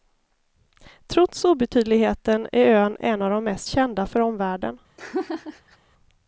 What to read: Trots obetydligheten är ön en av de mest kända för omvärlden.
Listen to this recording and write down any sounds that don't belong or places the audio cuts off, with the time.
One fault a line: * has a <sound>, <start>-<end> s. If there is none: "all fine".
* has a laugh, 5.0-5.8 s